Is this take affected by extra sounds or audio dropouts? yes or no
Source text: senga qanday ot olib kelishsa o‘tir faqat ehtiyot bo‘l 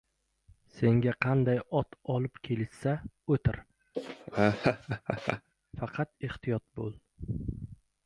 yes